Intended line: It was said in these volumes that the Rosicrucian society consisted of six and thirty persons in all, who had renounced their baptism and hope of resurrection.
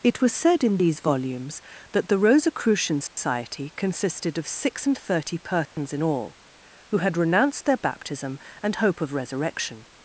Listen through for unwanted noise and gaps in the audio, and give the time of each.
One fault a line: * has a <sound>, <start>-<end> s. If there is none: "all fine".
* has a dropout, 3.1-3.2 s
* has a dropout, 5.7-5.8 s